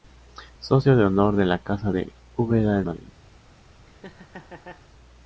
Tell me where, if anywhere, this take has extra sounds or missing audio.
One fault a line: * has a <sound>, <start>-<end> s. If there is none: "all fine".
* has a laugh, 3.8-4.9 s